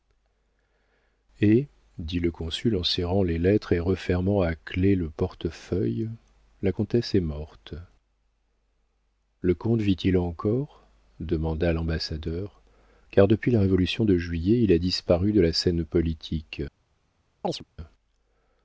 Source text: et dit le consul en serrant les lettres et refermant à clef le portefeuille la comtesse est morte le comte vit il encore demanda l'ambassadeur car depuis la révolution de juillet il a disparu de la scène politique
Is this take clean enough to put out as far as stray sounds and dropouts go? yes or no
no